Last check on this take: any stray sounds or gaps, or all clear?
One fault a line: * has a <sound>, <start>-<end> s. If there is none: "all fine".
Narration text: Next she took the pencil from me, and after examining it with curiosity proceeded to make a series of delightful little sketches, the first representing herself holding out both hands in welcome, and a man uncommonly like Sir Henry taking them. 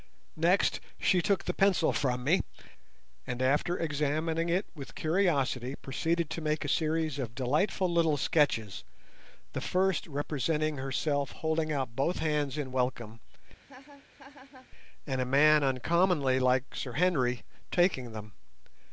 * has a laugh, 13.6-14.7 s